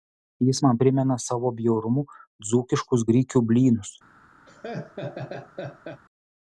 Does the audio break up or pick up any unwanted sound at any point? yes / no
yes